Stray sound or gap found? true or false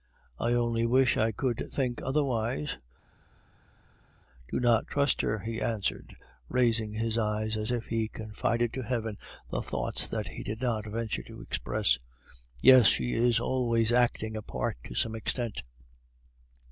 false